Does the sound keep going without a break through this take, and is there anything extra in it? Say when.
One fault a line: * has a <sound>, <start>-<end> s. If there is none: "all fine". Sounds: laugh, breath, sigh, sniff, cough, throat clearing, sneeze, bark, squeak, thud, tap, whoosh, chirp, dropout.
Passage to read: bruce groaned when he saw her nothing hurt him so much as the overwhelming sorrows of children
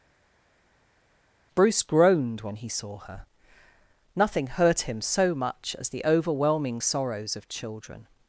all fine